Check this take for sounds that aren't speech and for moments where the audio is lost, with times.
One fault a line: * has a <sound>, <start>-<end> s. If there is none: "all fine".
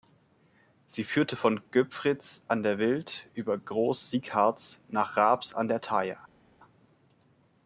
all fine